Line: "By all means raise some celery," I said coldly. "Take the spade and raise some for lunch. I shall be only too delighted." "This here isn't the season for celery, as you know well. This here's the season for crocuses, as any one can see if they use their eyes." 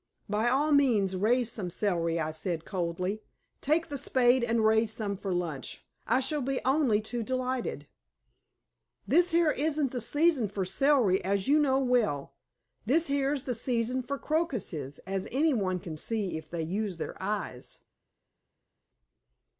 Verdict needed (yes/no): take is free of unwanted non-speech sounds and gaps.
yes